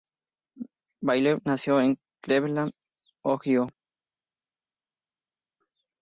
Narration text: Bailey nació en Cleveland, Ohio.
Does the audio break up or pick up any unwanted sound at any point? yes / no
no